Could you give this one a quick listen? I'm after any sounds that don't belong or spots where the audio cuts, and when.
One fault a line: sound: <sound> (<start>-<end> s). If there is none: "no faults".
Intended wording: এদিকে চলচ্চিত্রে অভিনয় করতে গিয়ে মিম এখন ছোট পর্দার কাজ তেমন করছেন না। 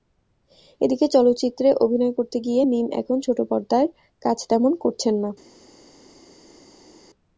no faults